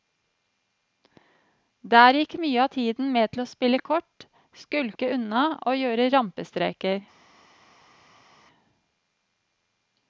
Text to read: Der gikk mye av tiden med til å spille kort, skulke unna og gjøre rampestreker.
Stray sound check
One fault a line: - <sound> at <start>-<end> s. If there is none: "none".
none